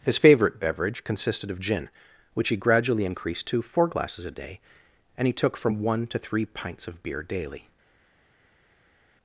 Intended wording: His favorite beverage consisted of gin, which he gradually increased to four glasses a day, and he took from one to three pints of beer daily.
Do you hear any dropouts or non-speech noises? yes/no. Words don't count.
no